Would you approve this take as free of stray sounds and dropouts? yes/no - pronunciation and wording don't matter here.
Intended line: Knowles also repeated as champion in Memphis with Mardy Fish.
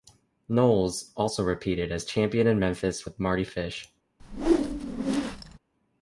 no